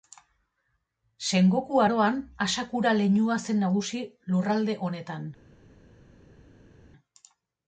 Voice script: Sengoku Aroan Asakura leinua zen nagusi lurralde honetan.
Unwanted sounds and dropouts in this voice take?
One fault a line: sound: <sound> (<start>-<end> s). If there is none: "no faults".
no faults